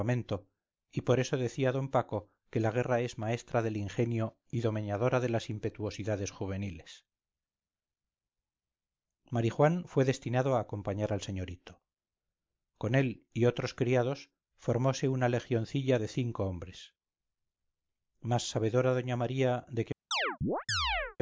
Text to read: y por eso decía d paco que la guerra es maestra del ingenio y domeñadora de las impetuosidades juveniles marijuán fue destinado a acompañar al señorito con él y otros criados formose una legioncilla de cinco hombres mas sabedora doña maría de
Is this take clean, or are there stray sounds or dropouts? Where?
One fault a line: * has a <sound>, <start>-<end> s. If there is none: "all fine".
* has a chirp, 20.1-21.2 s